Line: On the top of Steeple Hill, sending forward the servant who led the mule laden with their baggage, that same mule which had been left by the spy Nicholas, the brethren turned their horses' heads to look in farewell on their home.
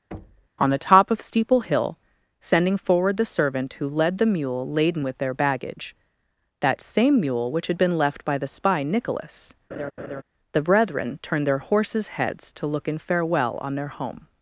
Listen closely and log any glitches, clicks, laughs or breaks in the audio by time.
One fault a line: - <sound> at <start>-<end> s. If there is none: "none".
- thud at 0.1-0.5 s
- laugh at 9.7-10.2 s